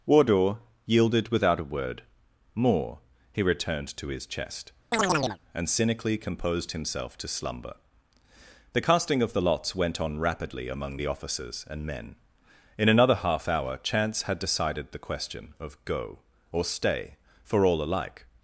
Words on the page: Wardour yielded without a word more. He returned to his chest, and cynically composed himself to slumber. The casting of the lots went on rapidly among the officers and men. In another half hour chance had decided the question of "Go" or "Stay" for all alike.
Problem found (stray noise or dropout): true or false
true